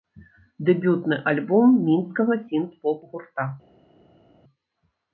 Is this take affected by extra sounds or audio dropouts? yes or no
no